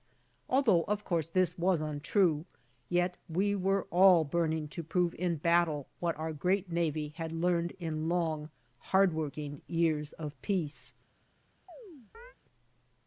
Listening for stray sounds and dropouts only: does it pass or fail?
fail